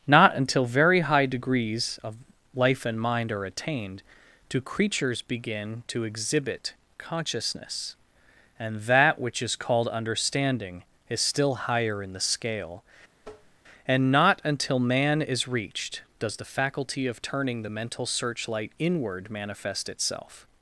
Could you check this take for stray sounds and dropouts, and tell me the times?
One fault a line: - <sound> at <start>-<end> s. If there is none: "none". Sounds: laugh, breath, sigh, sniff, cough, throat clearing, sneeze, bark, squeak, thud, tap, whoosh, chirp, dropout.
- tap at 13.2-13.6 s